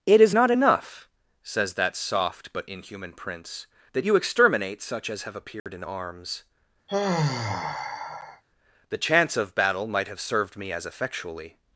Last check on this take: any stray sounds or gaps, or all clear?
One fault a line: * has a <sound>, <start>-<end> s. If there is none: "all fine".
* has a dropout, 5.6-5.7 s
* has a sigh, 6.9-8.4 s